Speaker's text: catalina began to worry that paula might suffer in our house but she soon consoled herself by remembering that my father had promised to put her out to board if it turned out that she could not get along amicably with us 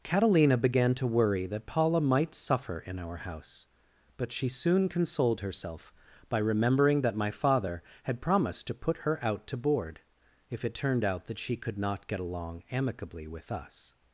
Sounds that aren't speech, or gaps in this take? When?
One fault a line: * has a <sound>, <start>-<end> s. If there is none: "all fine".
all fine